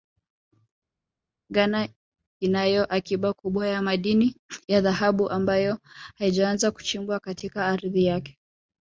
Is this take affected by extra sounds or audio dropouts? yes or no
no